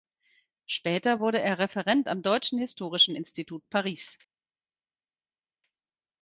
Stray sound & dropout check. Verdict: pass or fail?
pass